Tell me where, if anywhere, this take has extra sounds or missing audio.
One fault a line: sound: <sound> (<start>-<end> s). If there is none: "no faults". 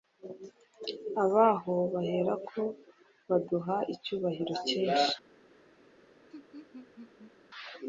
sound: laugh (6.3-7.3 s)